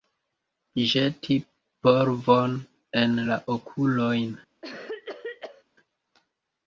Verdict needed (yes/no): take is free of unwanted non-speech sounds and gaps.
no